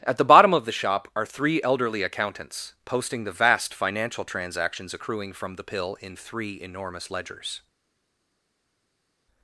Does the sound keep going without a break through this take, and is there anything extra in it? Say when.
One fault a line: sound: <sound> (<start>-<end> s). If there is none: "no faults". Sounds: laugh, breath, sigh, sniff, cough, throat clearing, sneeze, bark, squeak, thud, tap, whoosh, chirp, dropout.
no faults